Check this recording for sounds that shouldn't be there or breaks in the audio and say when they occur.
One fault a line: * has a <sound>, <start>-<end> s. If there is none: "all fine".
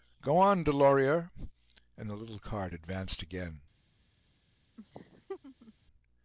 * has a laugh, 4.8-5.7 s